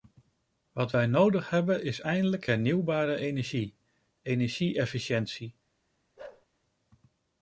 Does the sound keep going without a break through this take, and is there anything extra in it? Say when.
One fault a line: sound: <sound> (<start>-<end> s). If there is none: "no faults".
sound: bark (6.2-6.5 s)